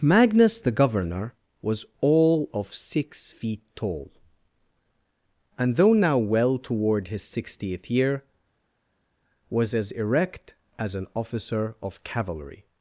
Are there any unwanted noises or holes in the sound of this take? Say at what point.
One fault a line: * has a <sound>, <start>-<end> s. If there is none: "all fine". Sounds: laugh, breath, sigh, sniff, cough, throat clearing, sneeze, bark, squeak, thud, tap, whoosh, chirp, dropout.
all fine